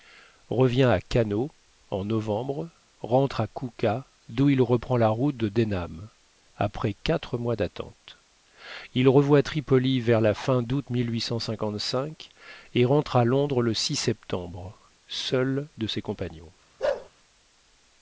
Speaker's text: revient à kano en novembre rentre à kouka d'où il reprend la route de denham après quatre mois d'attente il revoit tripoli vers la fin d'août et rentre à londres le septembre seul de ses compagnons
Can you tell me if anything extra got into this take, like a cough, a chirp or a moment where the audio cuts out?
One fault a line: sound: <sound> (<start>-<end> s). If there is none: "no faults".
sound: bark (16.8-17.1 s)